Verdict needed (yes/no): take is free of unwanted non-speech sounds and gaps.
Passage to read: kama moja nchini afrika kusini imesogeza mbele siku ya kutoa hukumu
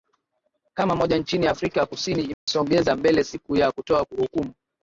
no